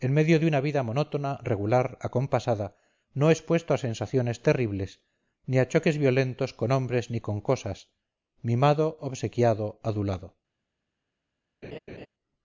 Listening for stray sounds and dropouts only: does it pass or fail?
fail